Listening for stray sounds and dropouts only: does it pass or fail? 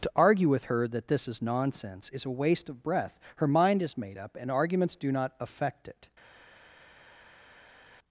pass